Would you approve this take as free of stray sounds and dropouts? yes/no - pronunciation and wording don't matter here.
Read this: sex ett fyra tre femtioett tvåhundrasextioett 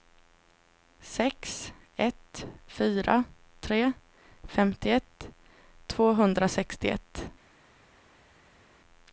yes